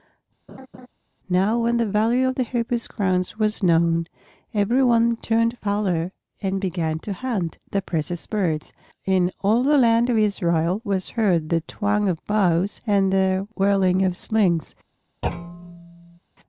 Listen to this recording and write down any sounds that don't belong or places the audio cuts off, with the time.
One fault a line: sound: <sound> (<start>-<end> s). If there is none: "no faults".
sound: laugh (0.5-0.9 s)
sound: thud (15.2-16.2 s)